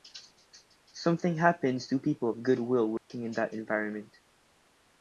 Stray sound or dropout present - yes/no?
yes